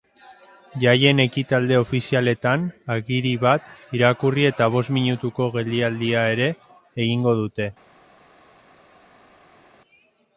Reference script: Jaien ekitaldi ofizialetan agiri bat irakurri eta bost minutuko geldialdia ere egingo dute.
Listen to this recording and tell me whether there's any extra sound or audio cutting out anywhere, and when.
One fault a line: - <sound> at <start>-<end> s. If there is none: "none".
none